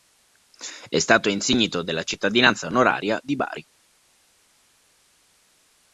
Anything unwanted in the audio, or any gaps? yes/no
no